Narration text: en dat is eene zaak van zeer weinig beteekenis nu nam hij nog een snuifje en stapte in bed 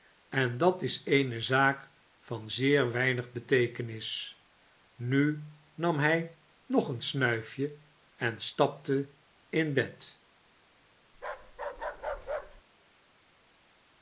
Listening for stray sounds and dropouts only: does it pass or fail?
fail